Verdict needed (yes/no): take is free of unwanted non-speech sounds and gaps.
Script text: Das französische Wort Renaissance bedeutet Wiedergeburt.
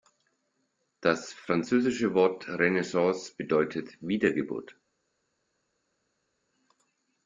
yes